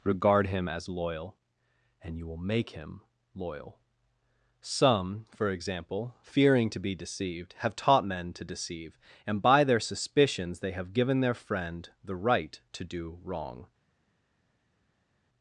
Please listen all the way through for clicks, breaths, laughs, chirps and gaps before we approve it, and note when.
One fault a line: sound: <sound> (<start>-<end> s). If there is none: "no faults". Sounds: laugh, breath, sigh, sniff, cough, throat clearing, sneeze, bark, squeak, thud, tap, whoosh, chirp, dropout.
no faults